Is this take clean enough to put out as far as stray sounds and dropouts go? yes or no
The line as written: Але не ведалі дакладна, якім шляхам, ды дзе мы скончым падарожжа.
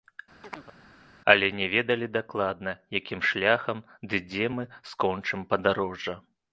no